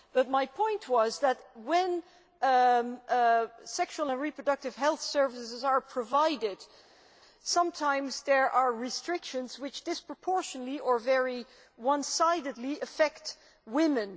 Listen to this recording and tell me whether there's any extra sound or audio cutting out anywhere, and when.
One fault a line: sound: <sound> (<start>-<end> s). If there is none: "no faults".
no faults